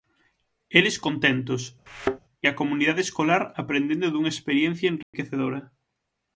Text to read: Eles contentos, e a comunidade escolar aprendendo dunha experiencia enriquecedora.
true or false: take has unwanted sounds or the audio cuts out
true